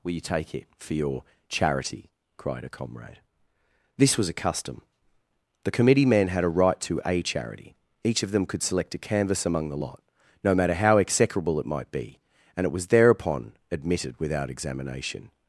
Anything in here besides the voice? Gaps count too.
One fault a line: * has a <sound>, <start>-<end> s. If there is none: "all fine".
all fine